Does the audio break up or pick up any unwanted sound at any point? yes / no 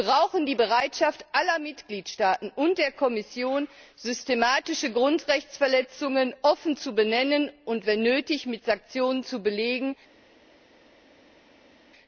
no